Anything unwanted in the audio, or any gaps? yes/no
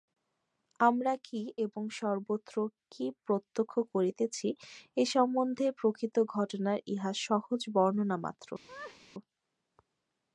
yes